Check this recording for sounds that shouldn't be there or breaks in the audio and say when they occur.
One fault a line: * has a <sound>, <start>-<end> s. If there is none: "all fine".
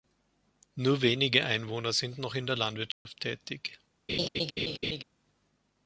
* has a dropout, 2.9-3.1 s
* has a laugh, 4.1-5.0 s